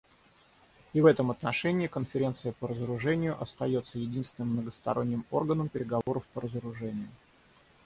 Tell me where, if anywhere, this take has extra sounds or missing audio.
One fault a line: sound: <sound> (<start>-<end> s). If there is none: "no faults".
sound: dropout (6.0-6.1 s)